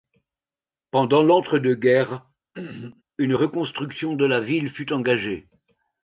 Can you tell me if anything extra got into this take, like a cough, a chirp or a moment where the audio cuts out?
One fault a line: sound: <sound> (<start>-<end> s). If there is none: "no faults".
sound: throat clearing (2.5-3.0 s)